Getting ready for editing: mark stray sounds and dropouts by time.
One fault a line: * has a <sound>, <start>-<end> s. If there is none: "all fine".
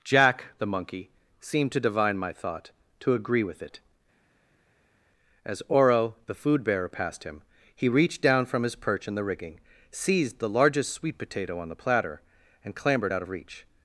all fine